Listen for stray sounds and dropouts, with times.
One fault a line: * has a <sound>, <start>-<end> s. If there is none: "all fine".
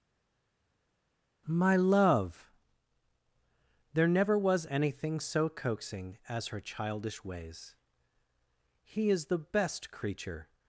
all fine